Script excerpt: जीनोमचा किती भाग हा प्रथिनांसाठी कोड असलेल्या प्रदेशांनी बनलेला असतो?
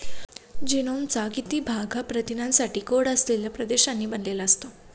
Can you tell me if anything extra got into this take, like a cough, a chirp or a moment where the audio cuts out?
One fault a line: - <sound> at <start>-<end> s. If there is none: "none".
none